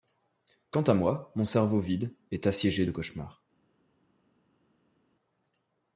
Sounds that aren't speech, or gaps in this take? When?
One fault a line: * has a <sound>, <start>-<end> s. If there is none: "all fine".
all fine